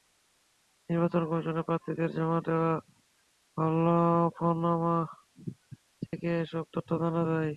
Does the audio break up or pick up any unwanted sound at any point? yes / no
yes